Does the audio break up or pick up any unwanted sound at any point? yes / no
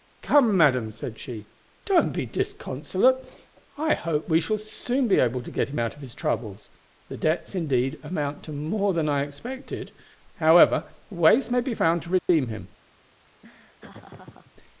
yes